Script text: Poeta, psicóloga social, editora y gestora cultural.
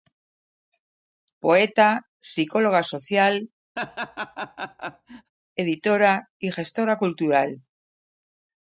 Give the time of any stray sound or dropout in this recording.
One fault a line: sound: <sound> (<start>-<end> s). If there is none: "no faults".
sound: laugh (3.8-5.3 s)